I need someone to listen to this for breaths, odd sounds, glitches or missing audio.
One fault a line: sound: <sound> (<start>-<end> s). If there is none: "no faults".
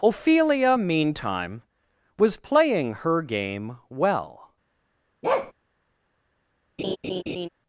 sound: bark (5.2-5.5 s)
sound: laugh (6.8-7.5 s)